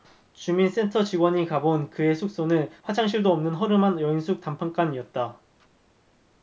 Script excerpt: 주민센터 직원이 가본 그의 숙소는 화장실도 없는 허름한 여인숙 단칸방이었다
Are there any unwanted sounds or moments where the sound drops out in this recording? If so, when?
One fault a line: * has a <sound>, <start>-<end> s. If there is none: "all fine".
all fine